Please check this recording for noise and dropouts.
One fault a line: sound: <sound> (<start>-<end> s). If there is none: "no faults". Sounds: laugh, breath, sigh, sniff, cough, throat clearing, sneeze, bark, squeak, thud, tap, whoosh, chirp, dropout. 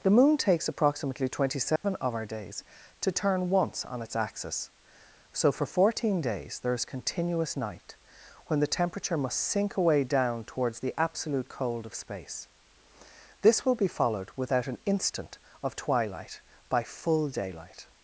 sound: dropout (1.8-1.8 s)